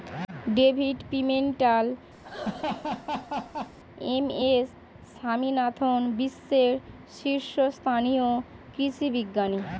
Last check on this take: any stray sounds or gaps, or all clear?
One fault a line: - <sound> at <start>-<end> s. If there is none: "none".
- laugh at 2.2-3.8 s